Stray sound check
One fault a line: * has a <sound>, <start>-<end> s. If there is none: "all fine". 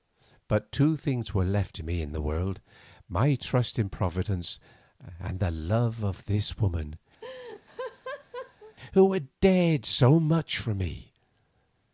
* has a laugh, 7.2-8.8 s